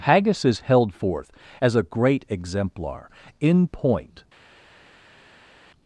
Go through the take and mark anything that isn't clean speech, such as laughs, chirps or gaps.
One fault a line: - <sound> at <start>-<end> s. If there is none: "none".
none